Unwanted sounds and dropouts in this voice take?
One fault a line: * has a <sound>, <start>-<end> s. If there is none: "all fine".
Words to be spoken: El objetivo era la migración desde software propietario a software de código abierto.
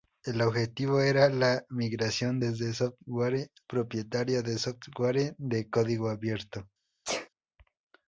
* has a sneeze, 7.0-7.3 s